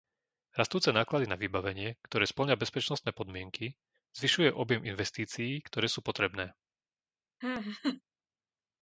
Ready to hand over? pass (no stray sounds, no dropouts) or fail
fail